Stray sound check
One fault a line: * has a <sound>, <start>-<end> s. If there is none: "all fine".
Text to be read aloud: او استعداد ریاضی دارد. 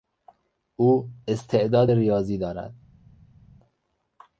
all fine